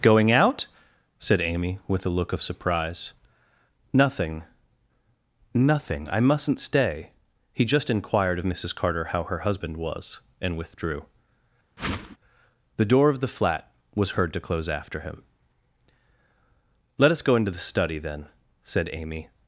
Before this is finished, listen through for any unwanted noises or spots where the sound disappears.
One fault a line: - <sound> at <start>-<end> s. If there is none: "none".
- whoosh at 11.8-12.2 s